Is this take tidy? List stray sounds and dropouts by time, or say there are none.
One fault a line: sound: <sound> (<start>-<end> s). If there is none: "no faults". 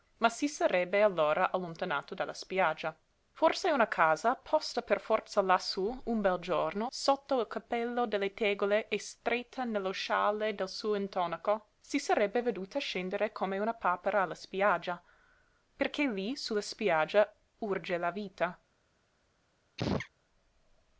sound: sneeze (19.8-20.1 s)